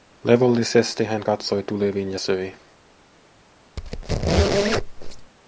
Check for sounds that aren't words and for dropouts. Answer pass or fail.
fail